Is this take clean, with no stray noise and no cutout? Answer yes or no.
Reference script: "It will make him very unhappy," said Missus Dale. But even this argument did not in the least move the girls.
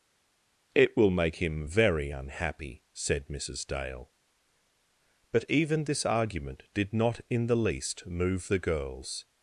yes